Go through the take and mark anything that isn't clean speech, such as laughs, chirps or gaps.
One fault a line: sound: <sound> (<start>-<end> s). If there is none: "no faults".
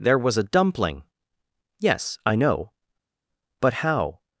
no faults